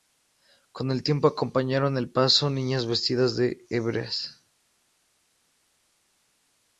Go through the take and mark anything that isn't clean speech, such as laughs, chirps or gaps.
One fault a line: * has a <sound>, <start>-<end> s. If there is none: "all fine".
all fine